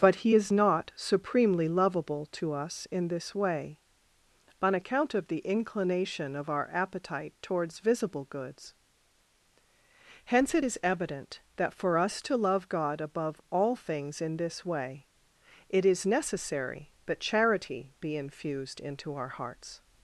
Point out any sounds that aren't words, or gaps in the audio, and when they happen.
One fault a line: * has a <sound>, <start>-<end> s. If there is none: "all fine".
all fine